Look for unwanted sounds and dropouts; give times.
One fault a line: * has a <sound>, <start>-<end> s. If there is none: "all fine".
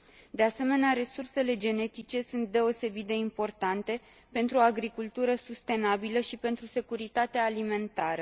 all fine